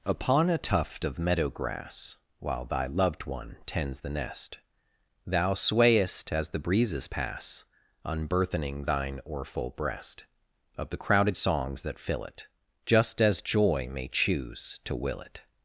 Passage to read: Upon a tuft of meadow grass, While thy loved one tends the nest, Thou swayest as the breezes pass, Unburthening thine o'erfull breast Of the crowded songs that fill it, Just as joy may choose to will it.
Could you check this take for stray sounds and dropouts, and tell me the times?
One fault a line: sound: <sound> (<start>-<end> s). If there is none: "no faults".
no faults